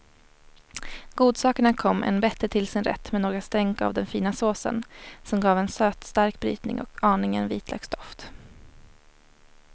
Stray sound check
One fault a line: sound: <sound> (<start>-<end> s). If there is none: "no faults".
no faults